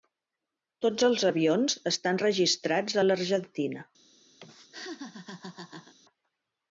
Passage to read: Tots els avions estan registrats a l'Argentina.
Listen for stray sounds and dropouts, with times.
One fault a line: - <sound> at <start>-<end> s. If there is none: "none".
- laugh at 4.4-5.9 s